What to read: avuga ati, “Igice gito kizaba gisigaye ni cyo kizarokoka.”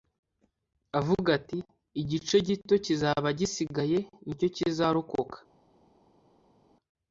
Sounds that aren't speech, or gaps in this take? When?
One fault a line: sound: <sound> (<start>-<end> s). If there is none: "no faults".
no faults